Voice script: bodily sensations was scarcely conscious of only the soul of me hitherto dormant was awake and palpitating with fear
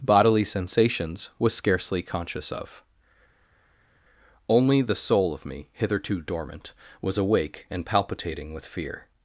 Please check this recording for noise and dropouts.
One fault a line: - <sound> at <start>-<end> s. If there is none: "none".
none